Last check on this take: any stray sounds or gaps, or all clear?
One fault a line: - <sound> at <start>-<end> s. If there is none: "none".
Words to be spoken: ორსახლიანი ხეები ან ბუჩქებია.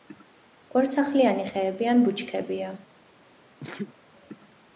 - sneeze at 3.6-3.9 s